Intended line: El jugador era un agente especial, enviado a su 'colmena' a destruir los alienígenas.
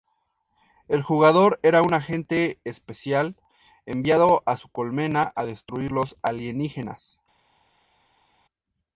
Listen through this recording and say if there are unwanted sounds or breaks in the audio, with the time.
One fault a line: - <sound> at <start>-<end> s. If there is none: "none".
none